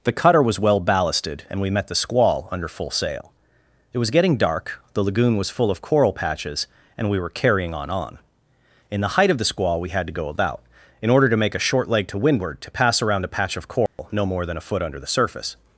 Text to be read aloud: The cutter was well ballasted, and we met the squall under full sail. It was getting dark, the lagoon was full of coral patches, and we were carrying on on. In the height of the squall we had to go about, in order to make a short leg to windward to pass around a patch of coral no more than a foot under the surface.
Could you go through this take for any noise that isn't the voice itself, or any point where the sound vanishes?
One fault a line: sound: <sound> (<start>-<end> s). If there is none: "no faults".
sound: dropout (13.9-14.0 s)